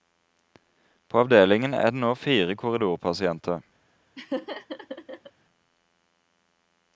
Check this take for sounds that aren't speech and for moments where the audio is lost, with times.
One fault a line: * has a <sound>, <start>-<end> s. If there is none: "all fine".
* has a laugh, 4.2-5.3 s